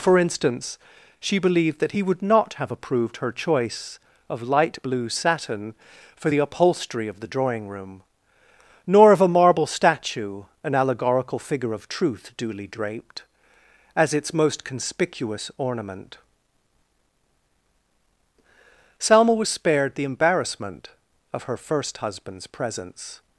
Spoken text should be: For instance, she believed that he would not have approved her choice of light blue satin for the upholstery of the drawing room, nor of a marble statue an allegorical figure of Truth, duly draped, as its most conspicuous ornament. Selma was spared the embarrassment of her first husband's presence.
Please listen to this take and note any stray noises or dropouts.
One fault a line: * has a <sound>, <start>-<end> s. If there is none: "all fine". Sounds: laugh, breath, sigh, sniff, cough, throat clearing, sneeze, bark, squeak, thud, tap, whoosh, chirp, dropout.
all fine